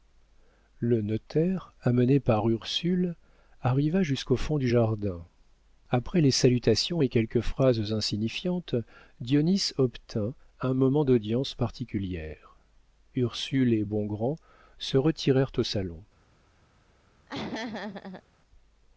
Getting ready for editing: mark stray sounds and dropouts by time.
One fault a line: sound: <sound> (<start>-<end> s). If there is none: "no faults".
sound: laugh (17.3-18.2 s)